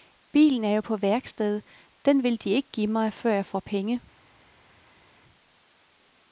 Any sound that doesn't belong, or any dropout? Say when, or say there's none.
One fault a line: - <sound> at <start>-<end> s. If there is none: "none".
none